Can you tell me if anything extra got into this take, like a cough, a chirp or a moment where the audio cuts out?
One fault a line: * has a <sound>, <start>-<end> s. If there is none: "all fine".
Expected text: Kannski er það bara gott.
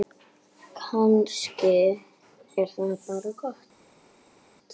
all fine